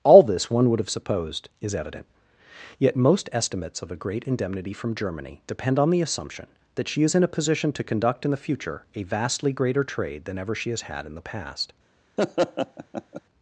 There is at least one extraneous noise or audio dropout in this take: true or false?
true